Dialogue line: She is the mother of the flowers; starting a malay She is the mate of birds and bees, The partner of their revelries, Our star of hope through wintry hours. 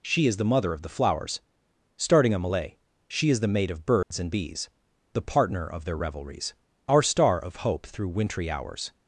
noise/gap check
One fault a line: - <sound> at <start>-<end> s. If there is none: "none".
- dropout at 4.0-4.1 s